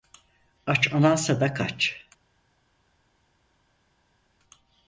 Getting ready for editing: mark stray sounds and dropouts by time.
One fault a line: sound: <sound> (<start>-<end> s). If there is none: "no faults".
no faults